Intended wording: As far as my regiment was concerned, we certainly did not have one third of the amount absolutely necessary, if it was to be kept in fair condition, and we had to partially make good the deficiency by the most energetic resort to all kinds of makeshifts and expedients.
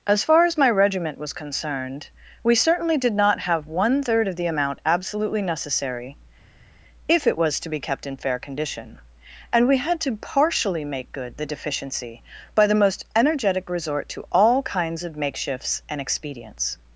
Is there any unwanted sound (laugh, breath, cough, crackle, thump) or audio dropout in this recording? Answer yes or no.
no